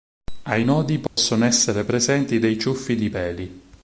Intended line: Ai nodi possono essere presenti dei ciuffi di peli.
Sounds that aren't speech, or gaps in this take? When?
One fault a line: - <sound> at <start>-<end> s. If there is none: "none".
- dropout at 1.1-1.2 s